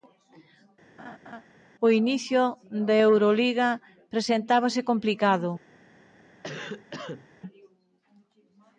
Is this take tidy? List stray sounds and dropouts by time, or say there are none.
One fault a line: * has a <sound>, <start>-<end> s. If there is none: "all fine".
* has a laugh, 1.0-1.5 s
* has a cough, 6.4-7.3 s